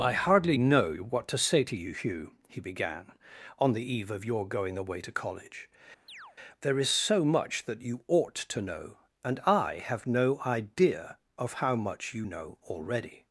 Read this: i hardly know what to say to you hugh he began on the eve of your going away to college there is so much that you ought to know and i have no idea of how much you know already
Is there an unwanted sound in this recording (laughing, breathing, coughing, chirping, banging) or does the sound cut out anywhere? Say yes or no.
yes